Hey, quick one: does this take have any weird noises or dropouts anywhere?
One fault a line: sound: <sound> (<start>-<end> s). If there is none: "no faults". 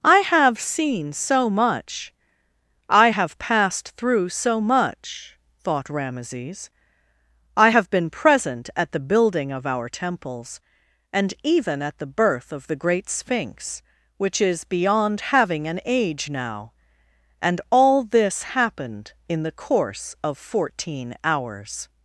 no faults